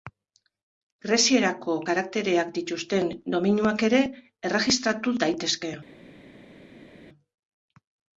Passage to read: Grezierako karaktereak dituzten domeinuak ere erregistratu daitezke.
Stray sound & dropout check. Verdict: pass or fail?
pass